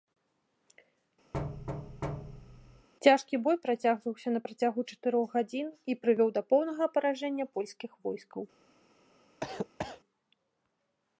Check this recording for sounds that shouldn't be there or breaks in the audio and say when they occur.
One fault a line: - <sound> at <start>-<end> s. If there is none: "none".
- thud at 1.3-2.9 s
- cough at 9.4-10.0 s